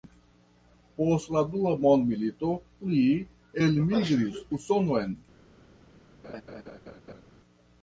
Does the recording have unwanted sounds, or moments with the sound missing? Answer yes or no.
yes